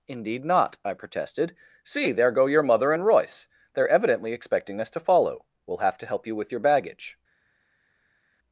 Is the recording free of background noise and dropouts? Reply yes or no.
yes